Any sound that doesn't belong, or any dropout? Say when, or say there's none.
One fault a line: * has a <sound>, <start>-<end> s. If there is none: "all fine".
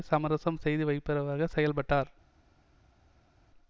all fine